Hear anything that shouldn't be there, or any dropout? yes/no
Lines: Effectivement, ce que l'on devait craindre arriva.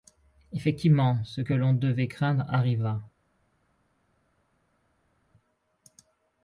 no